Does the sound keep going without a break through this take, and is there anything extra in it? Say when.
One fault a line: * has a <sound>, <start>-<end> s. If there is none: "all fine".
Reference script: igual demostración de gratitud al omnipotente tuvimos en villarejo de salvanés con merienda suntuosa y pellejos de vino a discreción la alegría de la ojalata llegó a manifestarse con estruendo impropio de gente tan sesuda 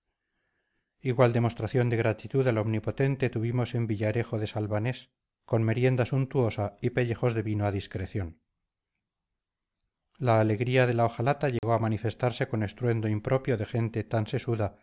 * has a dropout, 11.6-11.6 s